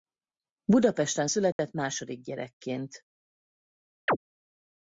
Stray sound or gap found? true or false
true